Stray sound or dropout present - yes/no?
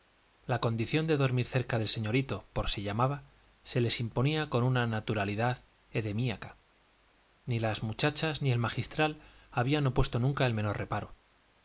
no